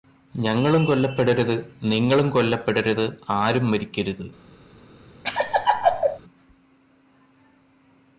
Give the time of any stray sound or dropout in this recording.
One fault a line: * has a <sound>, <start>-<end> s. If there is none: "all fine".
* has a laugh, 5.2-6.2 s